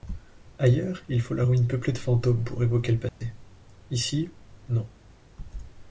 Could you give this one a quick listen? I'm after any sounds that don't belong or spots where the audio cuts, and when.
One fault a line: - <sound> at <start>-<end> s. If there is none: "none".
- dropout at 3.1-3.2 s